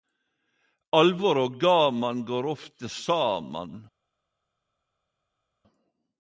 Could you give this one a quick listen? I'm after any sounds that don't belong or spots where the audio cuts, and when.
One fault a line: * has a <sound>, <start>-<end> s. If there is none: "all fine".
all fine